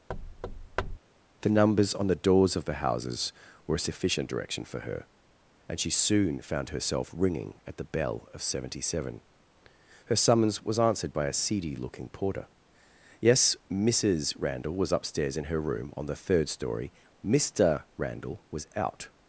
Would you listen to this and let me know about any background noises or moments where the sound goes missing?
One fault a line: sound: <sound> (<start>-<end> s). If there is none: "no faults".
sound: thud (0.1-1.0 s)